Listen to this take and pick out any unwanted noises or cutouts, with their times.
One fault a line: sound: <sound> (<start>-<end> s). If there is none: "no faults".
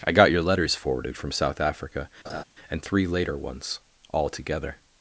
sound: laugh (2.2-2.4 s)